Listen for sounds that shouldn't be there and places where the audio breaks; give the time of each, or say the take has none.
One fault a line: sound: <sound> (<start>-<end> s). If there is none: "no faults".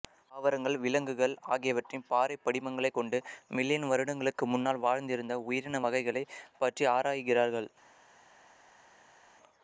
no faults